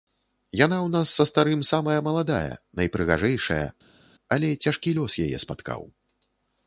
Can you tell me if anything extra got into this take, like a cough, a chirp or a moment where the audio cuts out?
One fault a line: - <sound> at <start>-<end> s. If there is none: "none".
none